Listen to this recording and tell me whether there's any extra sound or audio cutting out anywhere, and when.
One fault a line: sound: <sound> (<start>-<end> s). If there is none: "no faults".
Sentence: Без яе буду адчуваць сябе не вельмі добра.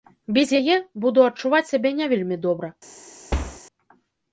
sound: thud (3.3-3.6 s)